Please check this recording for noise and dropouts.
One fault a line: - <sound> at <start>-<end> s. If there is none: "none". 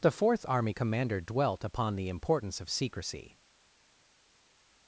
none